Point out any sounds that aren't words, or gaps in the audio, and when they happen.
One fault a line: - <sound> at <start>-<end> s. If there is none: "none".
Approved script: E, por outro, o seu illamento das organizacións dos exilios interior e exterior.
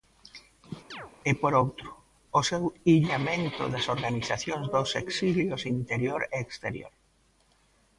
- chirp at 0.9-1.1 s